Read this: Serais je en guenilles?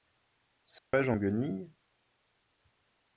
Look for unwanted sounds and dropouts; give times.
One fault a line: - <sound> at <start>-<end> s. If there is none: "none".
- dropout at 0.8-0.9 s